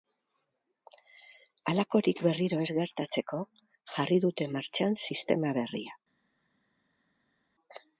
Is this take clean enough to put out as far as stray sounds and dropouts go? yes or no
yes